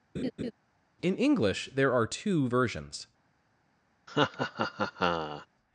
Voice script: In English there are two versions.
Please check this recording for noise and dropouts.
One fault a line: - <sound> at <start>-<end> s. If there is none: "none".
- laugh at 0.1-0.5 s
- laugh at 4.1-5.5 s